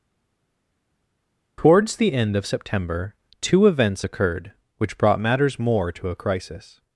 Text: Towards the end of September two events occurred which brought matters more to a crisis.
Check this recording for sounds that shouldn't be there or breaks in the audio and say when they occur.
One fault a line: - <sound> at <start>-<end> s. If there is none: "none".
none